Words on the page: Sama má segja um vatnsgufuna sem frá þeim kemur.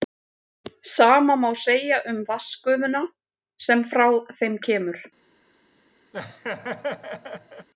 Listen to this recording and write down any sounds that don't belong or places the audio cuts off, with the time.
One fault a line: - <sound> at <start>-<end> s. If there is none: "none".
- laugh at 6.1-7.7 s